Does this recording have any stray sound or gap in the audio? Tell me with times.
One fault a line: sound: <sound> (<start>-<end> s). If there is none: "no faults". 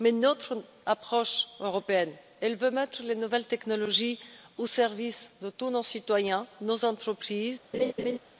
sound: laugh (7.7-8.2 s)